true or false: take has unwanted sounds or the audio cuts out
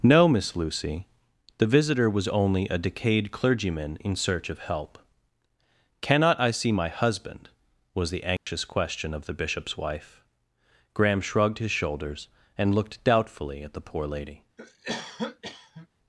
true